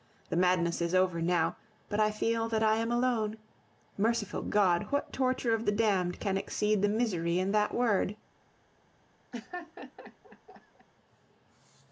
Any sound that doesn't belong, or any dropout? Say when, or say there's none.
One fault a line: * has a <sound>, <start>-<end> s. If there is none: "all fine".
* has a laugh, 9.3-10.9 s